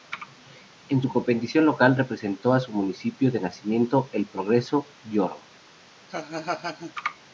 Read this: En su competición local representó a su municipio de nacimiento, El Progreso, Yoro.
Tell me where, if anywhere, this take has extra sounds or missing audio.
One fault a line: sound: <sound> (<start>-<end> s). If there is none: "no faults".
sound: laugh (6.1-6.9 s)